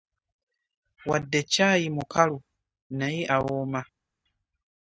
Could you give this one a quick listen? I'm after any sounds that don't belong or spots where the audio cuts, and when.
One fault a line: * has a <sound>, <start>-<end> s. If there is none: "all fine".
all fine